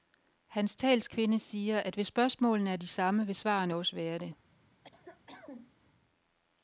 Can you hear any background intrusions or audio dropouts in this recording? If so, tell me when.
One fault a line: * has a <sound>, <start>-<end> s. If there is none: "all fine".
* has a cough, 4.8-5.7 s